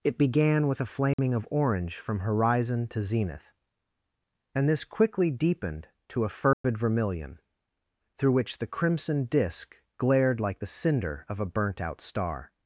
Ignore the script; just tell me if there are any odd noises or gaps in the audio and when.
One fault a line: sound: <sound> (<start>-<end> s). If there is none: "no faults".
sound: dropout (1.1-1.2 s)
sound: dropout (6.5-6.6 s)